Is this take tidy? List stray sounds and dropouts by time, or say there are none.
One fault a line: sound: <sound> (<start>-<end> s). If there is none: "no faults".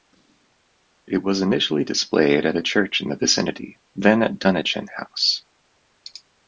no faults